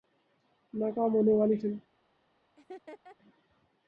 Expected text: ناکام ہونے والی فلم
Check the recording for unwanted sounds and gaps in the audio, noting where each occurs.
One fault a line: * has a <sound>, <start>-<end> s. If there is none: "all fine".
* has a laugh, 2.6-3.2 s